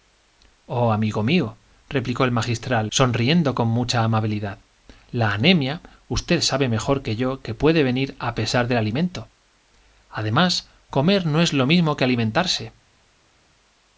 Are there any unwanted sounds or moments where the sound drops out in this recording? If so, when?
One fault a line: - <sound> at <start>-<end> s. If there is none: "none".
none